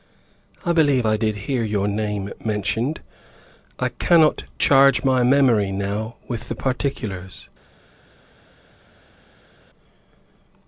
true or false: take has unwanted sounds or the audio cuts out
false